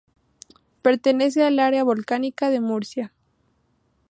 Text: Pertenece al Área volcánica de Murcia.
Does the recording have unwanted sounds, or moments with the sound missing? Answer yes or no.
no